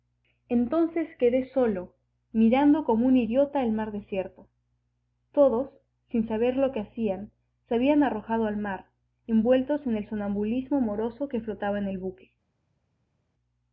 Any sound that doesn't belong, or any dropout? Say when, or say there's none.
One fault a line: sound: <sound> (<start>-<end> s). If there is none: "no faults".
no faults